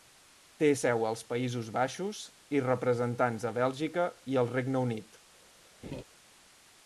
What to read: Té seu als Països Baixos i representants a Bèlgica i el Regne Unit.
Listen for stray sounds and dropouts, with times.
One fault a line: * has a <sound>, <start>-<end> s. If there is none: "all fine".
* has a laugh, 5.8-6.0 s